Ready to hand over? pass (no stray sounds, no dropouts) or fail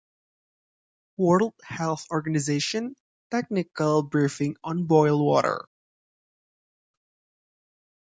pass